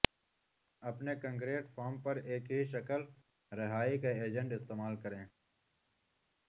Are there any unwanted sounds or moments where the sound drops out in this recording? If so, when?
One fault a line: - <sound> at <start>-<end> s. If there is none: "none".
none